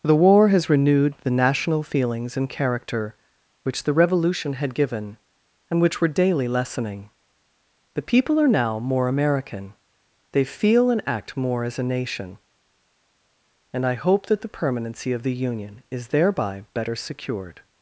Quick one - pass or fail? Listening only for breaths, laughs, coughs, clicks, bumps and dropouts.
pass